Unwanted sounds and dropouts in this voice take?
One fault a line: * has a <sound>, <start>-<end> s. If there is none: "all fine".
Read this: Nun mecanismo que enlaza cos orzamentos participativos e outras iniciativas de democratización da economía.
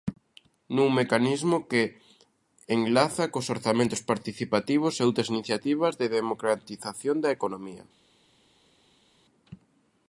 all fine